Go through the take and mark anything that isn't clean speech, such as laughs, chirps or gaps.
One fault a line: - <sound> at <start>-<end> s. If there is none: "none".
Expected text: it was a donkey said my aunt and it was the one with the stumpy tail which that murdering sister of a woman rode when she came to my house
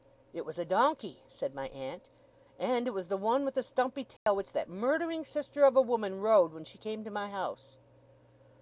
- dropout at 4.2-4.3 s